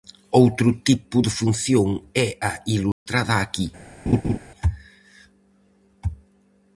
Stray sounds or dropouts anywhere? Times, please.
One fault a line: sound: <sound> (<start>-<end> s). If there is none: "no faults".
sound: dropout (2.9-3.1 s)
sound: laugh (4.1-4.4 s)